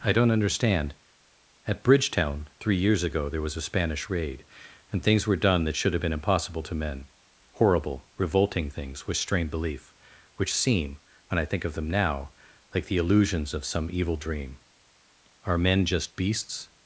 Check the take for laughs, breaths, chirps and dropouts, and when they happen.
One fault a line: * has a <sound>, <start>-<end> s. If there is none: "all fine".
all fine